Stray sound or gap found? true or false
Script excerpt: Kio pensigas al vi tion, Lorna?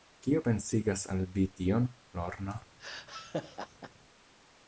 true